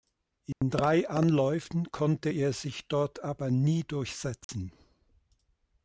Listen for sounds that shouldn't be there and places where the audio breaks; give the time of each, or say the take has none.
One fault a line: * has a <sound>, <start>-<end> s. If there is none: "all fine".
* has a dropout, 0.5-0.6 s
* has a dropout, 4.4-4.5 s